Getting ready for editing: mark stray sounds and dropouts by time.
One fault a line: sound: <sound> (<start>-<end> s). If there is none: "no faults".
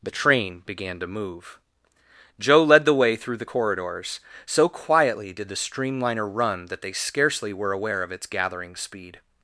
no faults